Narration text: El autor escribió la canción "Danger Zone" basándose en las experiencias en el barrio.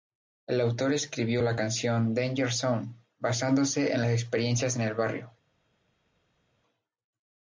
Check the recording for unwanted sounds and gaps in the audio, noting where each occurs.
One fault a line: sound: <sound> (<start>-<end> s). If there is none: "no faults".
no faults